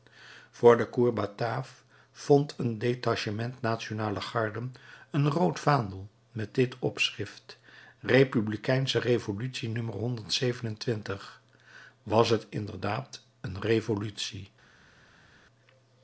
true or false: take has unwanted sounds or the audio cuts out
false